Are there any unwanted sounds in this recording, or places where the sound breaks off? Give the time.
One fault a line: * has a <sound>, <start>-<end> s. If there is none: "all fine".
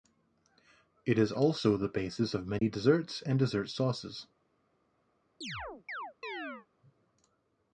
* has a dropout, 2.6-2.6 s
* has a chirp, 5.4-6.7 s